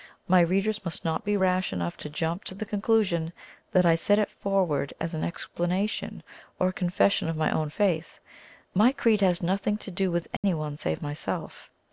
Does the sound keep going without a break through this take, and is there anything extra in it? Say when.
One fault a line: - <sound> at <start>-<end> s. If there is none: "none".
- dropout at 10.4-10.4 s